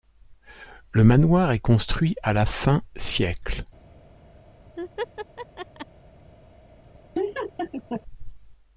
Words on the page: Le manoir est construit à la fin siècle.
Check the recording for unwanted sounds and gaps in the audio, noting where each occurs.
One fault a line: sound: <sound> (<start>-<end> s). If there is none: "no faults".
sound: laugh (4.8-5.9 s)
sound: laugh (7.1-8.0 s)